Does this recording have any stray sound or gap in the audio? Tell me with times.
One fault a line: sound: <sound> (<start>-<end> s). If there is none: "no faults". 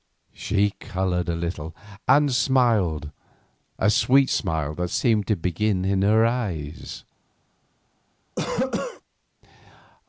sound: cough (8.4-9.0 s)